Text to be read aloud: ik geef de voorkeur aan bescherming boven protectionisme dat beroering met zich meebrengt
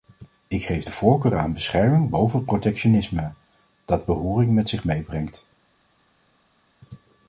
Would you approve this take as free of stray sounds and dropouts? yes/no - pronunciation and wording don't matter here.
yes